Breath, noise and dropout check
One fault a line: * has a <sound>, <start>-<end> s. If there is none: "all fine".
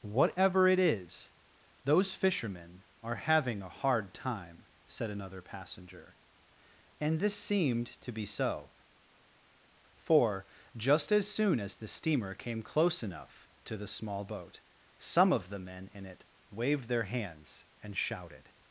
all fine